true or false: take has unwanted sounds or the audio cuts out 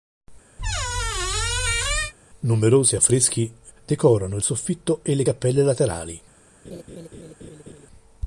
true